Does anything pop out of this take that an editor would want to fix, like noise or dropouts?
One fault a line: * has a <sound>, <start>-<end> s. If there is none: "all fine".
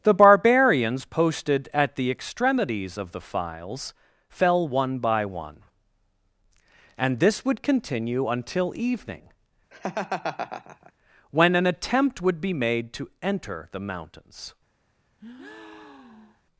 * has a laugh, 9.7-10.9 s
* has a breath, 15.2-16.4 s